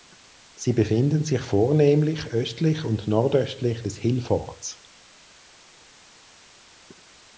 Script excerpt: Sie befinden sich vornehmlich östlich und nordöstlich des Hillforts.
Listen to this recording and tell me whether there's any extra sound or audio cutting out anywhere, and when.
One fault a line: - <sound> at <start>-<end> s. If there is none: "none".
none